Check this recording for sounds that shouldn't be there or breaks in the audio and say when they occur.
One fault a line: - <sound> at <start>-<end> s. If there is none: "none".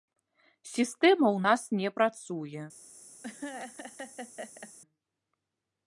- laugh at 3.2-4.7 s